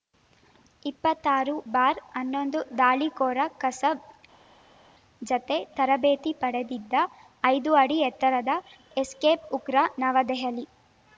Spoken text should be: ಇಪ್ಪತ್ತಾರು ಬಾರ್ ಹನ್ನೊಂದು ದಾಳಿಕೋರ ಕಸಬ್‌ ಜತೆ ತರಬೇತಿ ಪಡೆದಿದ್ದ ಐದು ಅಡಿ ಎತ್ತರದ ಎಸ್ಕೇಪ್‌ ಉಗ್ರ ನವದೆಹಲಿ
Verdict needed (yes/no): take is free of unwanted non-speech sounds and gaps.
yes